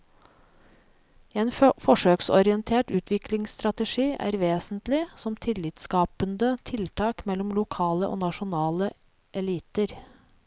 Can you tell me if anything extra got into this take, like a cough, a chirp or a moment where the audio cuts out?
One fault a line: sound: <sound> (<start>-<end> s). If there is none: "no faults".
no faults